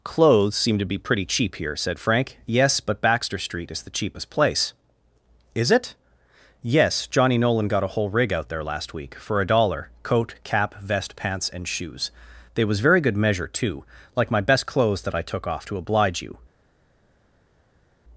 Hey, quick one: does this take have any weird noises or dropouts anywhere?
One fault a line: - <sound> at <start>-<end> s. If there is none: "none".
none